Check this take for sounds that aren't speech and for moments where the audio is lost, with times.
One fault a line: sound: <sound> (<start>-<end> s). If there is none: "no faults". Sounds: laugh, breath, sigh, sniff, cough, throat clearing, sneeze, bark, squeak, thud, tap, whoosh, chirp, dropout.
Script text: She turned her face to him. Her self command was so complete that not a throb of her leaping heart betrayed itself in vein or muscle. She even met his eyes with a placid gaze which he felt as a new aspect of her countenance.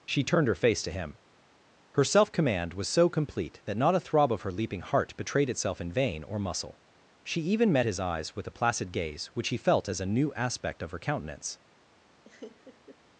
sound: laugh (12.2-13.0 s)